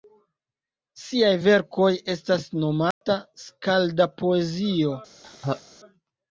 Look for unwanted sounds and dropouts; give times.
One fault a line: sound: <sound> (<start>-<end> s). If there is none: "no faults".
sound: dropout (2.9-3.0 s)
sound: laugh (5.2-5.6 s)